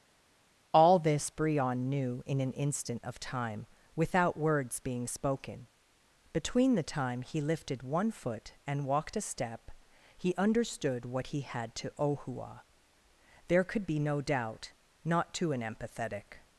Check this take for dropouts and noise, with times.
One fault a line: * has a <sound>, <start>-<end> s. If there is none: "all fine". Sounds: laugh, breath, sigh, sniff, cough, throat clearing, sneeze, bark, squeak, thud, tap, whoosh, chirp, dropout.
all fine